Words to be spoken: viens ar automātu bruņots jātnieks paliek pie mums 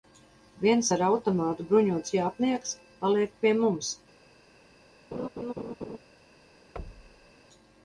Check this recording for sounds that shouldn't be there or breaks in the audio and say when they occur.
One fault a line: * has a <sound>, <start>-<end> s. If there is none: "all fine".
* has a laugh, 5.1-6.0 s
* has a thud, 6.8-7.3 s